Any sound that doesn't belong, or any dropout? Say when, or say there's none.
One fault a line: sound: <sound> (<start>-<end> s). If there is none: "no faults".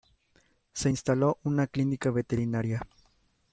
no faults